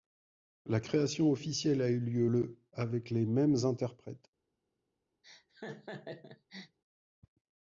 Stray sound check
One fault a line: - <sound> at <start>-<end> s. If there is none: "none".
- laugh at 5.2-6.8 s